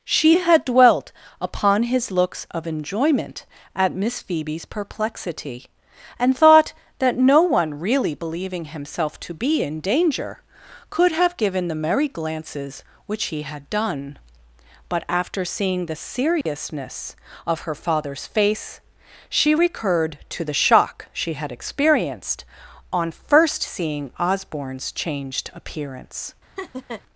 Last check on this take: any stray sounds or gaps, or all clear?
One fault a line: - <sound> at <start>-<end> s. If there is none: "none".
- dropout at 16.4-16.5 s
- laugh at 26.6-27.0 s